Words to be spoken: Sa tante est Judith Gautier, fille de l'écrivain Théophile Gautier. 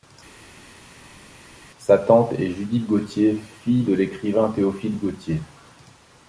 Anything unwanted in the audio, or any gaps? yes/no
no